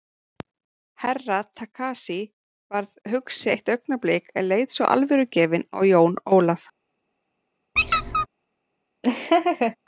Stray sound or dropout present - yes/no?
yes